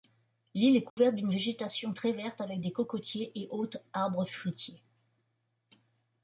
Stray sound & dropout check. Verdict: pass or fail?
fail